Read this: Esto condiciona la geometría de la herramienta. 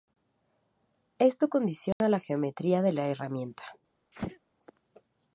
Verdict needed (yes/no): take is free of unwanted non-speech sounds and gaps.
no